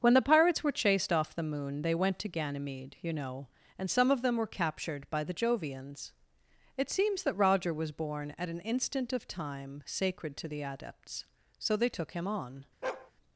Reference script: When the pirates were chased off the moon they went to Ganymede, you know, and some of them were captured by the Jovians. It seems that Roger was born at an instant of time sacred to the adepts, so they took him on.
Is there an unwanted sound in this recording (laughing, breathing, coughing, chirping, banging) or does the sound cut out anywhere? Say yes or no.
yes